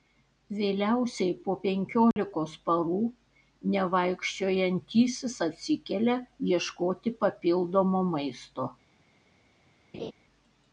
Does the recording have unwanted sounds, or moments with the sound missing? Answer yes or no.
yes